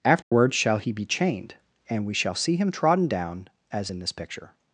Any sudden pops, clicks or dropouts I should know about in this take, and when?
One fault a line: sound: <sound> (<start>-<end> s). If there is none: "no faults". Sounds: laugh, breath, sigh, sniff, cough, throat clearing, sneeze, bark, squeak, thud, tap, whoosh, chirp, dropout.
sound: dropout (0.2-0.3 s)